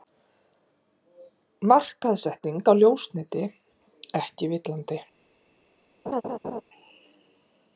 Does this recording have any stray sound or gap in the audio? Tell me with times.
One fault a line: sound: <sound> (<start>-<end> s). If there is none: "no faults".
sound: laugh (6.1-6.6 s)